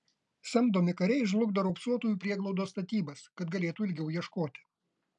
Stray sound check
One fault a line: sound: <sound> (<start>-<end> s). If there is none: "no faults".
no faults